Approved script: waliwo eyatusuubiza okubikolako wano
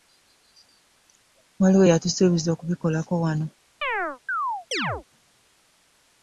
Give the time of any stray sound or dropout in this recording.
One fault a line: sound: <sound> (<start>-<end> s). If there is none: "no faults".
sound: chirp (3.8-5.0 s)